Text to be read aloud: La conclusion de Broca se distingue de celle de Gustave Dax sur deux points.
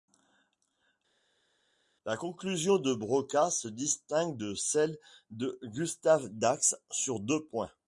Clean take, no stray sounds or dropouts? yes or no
yes